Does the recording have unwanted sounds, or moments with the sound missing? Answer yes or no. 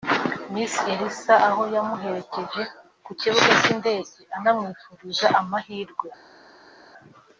no